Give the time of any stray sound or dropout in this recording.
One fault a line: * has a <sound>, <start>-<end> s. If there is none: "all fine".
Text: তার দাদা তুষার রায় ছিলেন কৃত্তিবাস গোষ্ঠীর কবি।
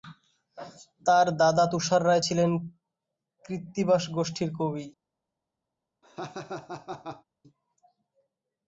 * has a laugh, 6.0-7.2 s